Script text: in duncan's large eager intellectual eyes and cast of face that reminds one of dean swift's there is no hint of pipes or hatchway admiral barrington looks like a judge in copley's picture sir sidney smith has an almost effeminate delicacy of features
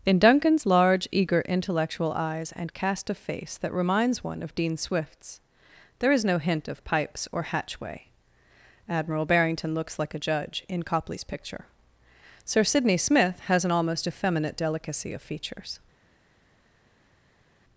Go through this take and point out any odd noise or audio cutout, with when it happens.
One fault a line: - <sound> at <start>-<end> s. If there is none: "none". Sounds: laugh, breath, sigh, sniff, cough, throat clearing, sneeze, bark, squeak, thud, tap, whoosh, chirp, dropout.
none